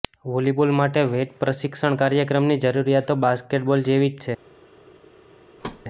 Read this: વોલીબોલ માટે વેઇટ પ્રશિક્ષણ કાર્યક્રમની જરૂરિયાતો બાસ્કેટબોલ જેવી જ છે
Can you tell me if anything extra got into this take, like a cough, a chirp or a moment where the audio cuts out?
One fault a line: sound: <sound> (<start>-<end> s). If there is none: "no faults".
sound: thud (5.6-5.8 s)